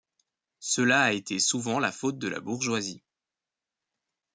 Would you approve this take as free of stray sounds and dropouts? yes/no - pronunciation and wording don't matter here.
yes